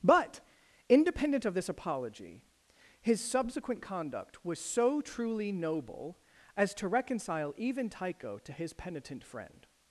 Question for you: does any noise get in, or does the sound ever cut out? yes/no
no